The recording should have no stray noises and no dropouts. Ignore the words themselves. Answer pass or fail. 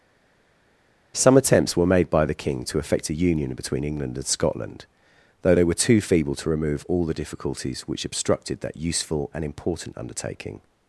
pass